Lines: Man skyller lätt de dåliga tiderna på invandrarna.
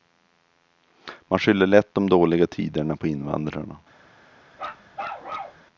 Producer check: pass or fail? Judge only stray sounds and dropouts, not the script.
fail